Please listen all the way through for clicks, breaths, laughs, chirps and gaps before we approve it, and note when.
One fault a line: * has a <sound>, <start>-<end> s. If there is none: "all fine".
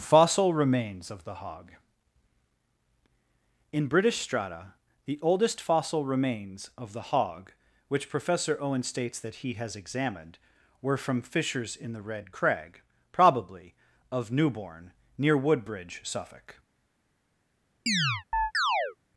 * has a chirp, 17.9-19.0 s